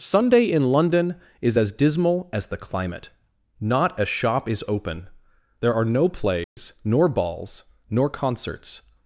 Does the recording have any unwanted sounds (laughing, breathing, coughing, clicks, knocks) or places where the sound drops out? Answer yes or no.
yes